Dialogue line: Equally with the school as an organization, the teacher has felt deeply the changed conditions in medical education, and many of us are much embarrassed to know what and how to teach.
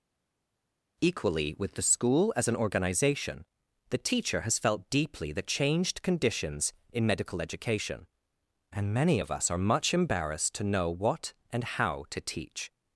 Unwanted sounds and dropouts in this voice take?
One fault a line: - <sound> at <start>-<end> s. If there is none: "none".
none